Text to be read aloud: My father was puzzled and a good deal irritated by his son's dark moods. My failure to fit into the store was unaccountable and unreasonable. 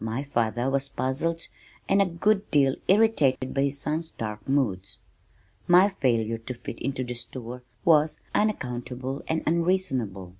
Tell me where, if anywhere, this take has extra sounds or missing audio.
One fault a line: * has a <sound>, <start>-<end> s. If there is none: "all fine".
* has a dropout, 3.4-3.4 s